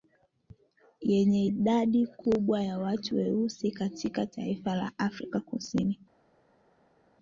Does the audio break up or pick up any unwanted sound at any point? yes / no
no